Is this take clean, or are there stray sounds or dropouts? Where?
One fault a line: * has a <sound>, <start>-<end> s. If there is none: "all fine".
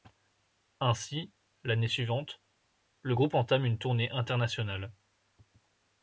all fine